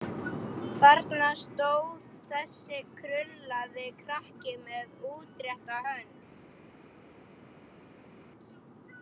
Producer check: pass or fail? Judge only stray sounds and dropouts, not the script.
pass